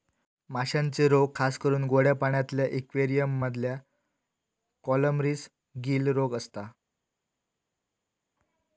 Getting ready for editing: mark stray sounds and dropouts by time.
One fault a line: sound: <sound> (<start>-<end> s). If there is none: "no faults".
no faults